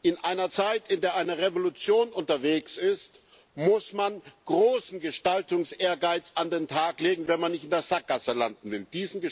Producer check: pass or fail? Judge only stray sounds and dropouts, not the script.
pass